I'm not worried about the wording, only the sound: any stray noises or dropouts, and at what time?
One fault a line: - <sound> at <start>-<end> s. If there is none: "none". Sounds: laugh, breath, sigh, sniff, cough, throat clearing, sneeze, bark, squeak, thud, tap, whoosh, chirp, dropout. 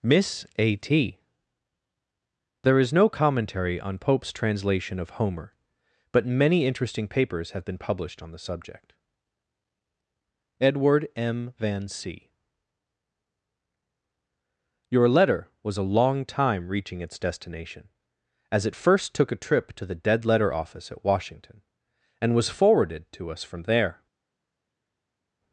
none